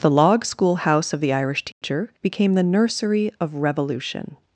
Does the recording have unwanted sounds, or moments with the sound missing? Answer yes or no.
yes